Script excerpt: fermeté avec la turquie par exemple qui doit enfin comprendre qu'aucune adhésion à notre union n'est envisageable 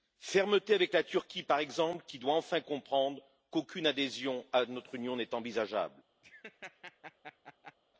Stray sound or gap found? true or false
true